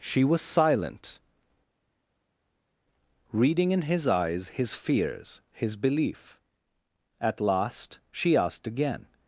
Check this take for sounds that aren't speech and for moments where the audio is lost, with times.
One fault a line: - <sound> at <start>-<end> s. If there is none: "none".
none